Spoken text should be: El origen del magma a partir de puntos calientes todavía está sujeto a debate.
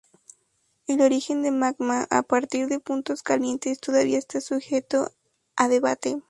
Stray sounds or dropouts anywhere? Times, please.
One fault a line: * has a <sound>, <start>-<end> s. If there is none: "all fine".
all fine